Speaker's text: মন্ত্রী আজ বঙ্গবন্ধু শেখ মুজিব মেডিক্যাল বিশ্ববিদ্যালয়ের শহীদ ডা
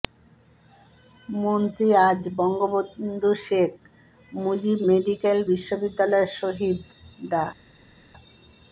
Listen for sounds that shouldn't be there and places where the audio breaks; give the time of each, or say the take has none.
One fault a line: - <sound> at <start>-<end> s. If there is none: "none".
none